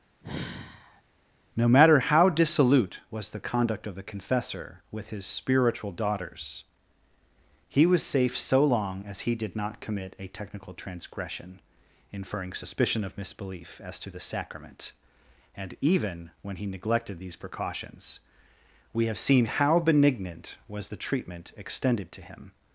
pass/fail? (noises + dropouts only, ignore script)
fail